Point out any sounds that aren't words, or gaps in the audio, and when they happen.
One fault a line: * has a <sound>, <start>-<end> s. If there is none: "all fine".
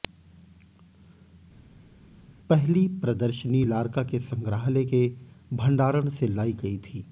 all fine